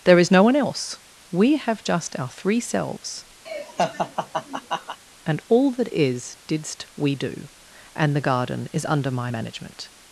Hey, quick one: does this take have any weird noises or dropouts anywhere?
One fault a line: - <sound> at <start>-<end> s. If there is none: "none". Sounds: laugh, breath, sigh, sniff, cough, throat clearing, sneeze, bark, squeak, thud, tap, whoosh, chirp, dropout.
- laugh at 3.5-5.0 s